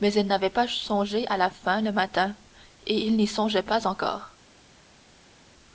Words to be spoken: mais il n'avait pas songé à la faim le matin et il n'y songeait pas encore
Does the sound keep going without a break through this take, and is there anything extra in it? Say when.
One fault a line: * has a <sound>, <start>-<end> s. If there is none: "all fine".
all fine